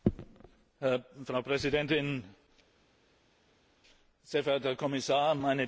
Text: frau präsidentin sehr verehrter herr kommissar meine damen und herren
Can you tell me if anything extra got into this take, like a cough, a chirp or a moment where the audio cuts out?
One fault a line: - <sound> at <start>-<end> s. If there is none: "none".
none